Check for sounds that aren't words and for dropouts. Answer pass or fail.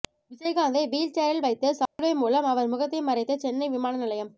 fail